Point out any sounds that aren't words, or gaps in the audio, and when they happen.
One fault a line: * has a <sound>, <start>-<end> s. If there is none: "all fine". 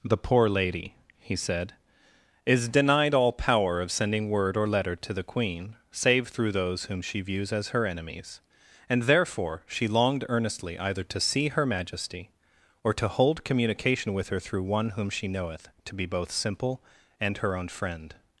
all fine